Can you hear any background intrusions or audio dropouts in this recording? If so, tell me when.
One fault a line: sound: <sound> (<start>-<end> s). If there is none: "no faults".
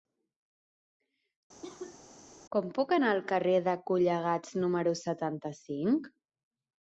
sound: cough (1.6-2.0 s)